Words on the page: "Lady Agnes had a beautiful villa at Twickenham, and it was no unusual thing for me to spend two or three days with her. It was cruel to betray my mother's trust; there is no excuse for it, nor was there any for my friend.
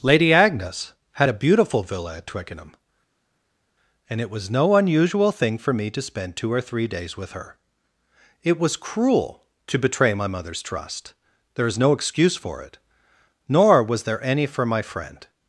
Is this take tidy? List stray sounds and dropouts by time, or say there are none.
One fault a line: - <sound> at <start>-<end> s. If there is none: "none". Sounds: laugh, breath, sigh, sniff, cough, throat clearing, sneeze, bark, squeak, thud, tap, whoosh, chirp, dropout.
none